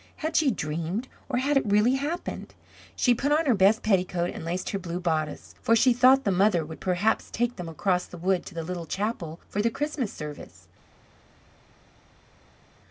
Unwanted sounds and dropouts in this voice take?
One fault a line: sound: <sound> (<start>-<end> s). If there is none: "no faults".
no faults